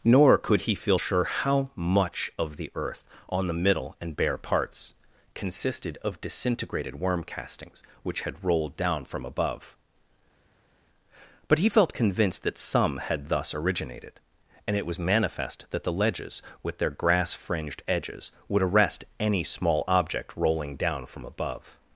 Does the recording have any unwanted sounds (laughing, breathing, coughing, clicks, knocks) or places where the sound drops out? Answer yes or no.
no